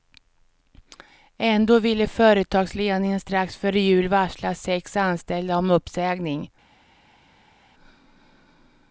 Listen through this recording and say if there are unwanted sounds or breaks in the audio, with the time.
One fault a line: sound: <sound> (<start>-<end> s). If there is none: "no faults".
no faults